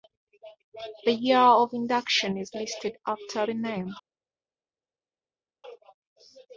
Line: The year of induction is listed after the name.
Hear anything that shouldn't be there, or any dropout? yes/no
no